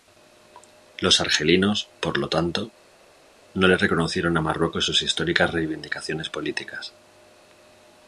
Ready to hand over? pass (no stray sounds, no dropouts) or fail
pass